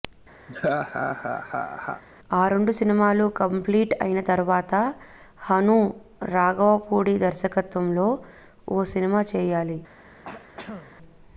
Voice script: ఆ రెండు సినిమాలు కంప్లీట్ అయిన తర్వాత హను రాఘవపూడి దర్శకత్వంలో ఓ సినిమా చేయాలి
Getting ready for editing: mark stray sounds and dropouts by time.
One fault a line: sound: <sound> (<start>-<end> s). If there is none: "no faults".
sound: laugh (0.5-2.0 s)
sound: throat clearing (10.2-10.9 s)